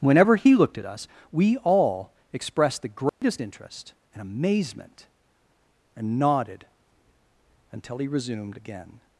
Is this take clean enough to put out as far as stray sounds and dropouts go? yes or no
no